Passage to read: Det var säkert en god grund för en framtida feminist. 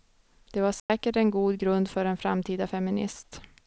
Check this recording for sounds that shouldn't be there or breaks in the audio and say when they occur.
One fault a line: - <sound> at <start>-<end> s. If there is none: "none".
- dropout at 0.8-0.9 s